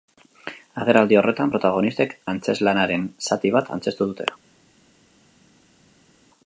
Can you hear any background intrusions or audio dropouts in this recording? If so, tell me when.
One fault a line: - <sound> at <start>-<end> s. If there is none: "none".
none